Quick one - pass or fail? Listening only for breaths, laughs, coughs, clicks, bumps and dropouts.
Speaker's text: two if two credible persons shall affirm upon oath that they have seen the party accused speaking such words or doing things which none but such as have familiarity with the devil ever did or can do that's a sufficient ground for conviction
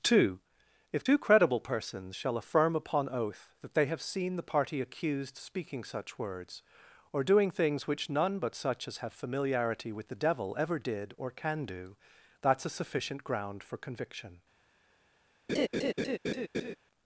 fail